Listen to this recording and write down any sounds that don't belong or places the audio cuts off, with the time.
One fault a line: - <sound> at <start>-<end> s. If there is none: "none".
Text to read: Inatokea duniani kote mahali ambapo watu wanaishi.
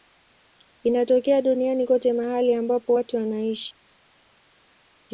none